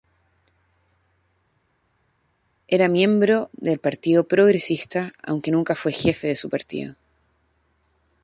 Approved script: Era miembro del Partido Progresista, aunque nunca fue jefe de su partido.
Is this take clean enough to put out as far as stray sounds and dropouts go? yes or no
yes